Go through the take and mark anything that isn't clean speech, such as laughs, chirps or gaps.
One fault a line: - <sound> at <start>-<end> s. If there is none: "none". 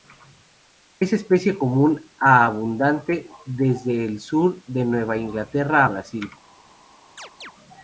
- chirp at 7.2-7.5 s